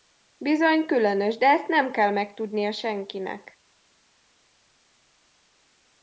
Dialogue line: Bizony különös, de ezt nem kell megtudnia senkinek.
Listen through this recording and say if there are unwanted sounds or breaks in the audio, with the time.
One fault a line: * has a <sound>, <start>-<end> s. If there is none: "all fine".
all fine